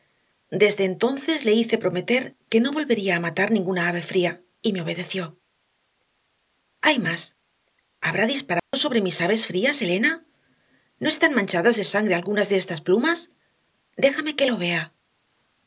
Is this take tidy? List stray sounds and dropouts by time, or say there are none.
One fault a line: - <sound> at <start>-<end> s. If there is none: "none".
- dropout at 8.6-8.7 s